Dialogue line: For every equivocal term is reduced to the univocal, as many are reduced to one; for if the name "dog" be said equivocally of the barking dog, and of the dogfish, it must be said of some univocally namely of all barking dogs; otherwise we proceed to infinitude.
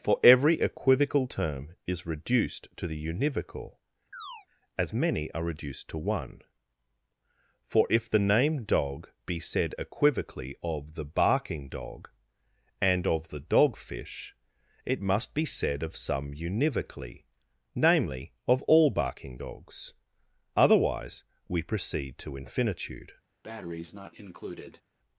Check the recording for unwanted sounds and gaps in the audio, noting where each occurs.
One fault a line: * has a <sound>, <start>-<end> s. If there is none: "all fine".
* has a chirp, 4.1-4.5 s
* has a breath, 23.4-24.8 s